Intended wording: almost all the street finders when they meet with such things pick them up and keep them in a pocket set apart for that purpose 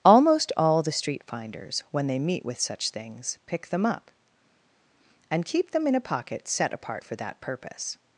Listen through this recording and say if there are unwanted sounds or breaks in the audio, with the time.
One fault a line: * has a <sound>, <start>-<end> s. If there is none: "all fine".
all fine